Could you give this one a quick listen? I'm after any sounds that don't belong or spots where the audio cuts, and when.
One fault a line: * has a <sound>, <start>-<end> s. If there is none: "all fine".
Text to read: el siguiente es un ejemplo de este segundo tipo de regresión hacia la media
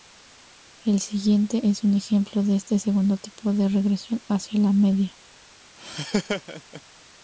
* has a laugh, 5.8-6.8 s